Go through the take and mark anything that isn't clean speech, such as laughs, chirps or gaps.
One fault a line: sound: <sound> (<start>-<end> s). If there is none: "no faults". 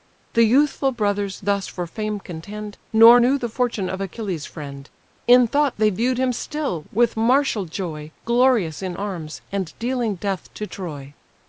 no faults